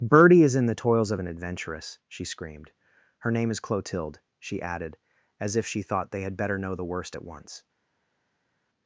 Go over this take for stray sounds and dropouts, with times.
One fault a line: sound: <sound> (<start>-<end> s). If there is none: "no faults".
no faults